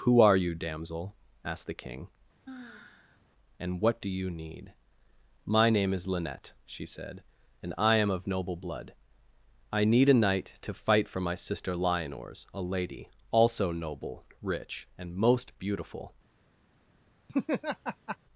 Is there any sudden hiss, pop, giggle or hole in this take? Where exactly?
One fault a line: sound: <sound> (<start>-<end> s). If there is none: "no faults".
sound: sigh (2.5-3.2 s)
sound: laugh (17.3-18.2 s)